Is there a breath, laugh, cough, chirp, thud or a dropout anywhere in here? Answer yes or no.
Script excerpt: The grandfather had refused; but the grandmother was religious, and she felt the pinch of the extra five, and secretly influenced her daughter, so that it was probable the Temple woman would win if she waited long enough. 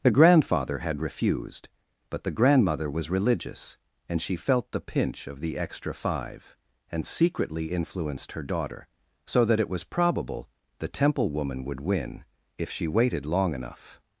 no